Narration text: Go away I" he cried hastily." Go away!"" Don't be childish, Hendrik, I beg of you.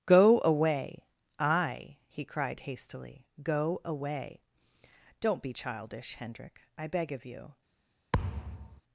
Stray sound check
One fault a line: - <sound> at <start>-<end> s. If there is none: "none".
- thud at 8.1-8.8 s